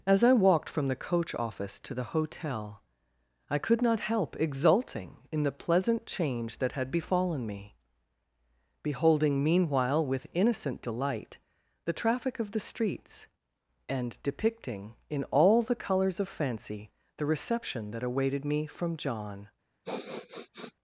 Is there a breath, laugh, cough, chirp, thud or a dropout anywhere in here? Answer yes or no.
yes